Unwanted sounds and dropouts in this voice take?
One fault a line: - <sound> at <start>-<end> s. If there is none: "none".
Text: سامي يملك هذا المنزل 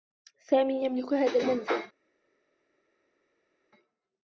none